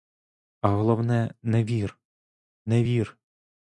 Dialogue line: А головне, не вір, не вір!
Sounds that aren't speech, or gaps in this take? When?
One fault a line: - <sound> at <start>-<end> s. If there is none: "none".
none